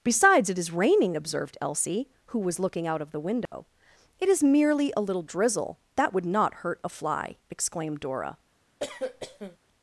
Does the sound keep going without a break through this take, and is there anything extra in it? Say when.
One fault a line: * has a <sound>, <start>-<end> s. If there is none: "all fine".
* has a dropout, 3.5-3.5 s
* has a cough, 8.8-9.6 s